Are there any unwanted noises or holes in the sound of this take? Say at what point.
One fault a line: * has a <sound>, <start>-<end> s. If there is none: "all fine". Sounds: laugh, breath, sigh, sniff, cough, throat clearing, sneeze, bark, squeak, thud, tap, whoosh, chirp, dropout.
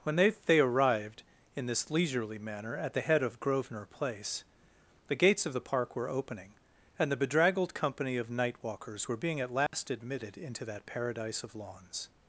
* has a dropout, 9.7-9.7 s